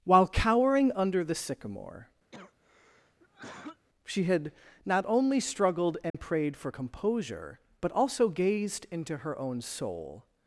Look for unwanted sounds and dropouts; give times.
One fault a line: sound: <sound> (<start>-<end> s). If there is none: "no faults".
sound: cough (2.3-3.9 s)
sound: dropout (6.1-6.1 s)